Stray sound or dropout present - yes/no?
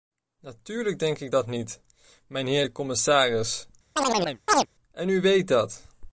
yes